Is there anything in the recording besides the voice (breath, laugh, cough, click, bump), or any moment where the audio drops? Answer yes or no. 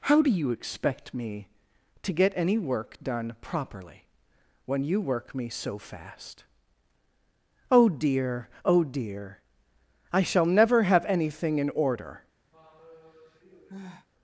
yes